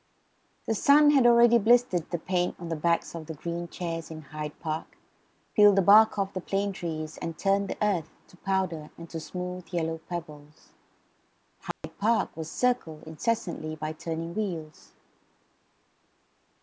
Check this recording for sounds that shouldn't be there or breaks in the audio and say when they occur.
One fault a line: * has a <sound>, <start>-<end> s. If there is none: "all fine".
* has a dropout, 11.7-11.8 s